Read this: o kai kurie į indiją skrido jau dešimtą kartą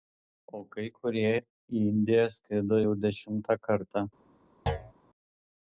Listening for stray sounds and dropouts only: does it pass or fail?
fail